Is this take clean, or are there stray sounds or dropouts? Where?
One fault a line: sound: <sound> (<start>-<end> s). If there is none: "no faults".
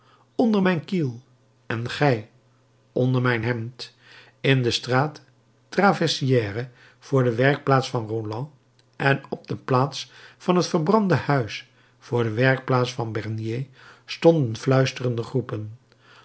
no faults